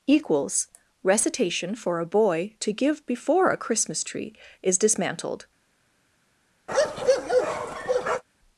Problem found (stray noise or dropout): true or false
true